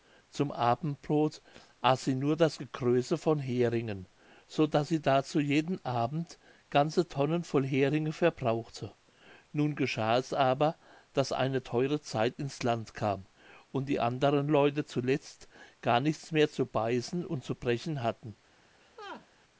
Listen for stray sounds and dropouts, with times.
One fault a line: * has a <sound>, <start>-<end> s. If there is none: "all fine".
* has a laugh, 18.8-19.3 s